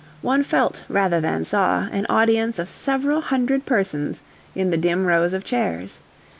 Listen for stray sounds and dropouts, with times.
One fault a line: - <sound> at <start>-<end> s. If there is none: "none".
none